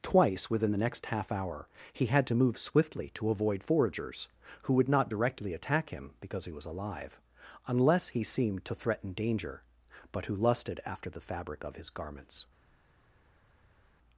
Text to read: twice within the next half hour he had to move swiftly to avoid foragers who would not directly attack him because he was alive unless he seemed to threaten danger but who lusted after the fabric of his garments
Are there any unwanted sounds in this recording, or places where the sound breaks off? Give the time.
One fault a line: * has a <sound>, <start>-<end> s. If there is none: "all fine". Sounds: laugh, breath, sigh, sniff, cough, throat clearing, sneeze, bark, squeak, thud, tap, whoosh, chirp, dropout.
all fine